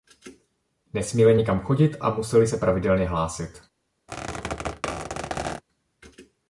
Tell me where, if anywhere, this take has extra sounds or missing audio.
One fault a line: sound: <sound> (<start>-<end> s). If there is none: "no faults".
sound: squeak (4.1-5.6 s)